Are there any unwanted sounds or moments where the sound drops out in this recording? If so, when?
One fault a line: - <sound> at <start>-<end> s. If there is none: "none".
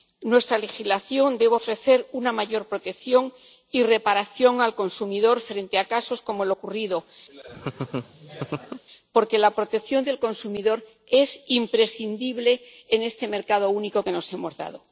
- laugh at 7.3-8.8 s